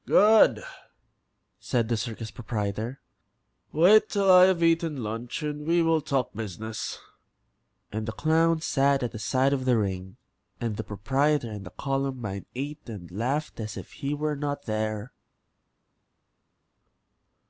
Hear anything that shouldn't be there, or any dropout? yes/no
no